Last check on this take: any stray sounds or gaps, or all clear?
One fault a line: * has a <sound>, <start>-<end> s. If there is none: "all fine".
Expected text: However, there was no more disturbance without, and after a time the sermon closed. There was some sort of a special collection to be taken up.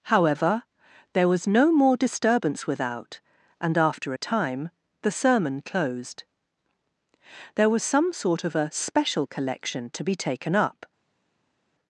all fine